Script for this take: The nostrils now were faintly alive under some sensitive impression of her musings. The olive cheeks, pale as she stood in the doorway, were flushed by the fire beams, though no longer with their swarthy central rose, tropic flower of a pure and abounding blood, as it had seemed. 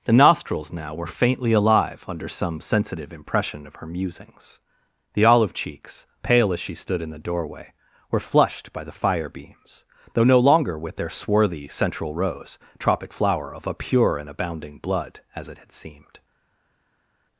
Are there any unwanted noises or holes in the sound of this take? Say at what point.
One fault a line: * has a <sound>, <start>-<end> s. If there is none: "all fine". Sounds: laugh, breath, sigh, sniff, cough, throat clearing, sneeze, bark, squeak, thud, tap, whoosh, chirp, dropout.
all fine